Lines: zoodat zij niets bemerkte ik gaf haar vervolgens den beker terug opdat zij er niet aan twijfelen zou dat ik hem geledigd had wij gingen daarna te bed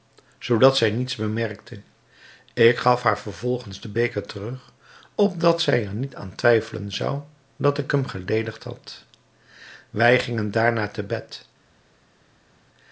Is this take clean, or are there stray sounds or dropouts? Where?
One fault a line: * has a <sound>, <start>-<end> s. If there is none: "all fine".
all fine